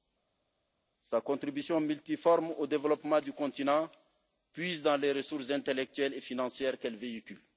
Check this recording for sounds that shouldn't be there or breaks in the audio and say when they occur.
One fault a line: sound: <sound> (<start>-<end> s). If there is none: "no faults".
no faults